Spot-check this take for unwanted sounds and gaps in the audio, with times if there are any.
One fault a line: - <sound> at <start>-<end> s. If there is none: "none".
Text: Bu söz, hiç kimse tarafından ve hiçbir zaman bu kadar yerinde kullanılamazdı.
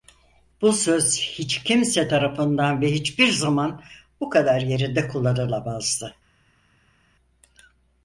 none